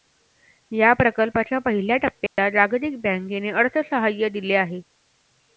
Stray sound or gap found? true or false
true